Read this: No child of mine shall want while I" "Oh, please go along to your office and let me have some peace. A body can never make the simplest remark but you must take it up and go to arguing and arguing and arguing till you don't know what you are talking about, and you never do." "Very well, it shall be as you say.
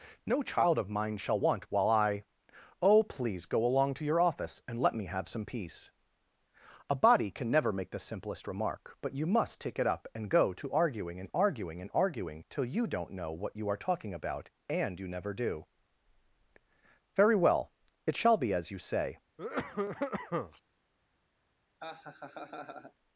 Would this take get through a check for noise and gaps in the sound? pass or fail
fail